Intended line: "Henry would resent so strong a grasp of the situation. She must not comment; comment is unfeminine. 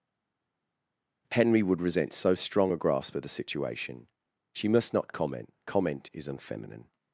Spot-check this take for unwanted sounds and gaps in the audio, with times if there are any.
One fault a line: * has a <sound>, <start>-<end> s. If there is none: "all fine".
all fine